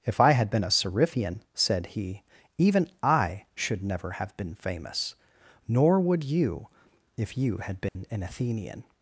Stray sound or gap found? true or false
true